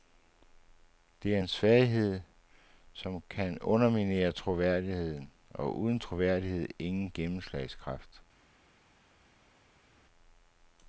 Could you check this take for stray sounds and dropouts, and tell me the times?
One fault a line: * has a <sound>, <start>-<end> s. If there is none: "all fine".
all fine